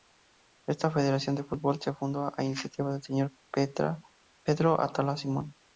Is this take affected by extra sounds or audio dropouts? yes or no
no